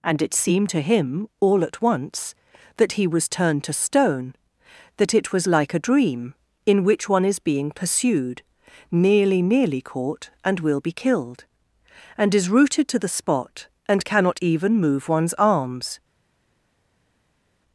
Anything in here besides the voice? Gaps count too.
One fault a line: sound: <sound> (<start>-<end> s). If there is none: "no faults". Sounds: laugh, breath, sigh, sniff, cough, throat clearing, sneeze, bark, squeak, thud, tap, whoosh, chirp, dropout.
no faults